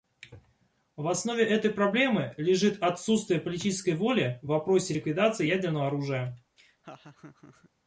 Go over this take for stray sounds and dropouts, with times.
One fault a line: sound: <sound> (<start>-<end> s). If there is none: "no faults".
sound: laugh (6.6-7.7 s)